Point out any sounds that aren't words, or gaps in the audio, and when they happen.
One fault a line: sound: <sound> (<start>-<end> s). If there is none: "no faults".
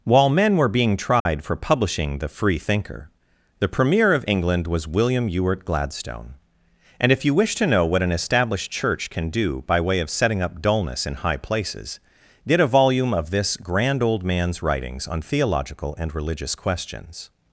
sound: dropout (1.2-1.3 s)